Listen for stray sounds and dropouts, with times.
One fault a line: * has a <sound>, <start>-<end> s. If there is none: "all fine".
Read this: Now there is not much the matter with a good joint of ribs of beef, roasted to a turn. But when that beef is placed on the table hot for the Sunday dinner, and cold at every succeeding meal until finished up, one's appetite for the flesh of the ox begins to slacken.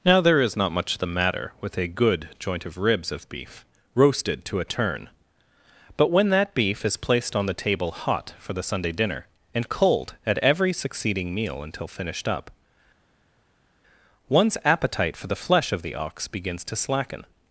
all fine